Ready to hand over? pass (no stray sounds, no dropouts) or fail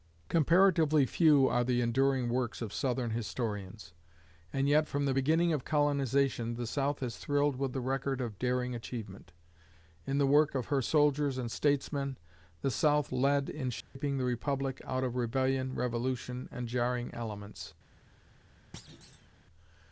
fail